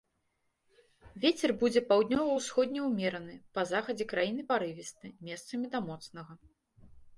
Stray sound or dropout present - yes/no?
no